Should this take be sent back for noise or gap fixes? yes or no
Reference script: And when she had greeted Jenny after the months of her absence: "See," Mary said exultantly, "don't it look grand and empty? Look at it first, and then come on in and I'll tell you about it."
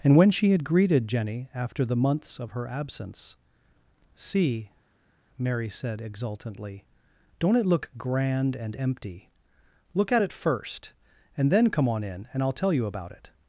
no